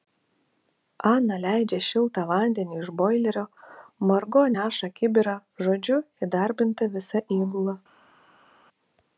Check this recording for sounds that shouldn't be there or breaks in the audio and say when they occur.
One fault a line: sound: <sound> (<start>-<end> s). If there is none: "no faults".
no faults